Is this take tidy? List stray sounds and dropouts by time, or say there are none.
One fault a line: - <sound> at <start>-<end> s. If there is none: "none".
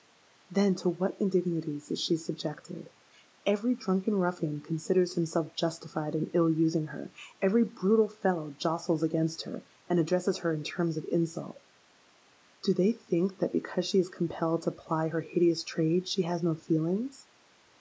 none